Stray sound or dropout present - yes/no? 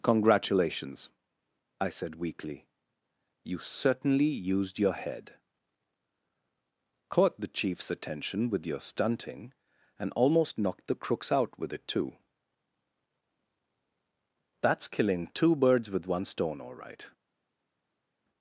no